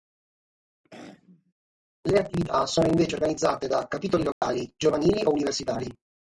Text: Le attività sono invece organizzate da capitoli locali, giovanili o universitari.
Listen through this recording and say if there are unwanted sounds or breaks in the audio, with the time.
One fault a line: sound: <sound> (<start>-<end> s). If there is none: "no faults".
sound: throat clearing (0.8-1.5 s)
sound: dropout (4.3-4.4 s)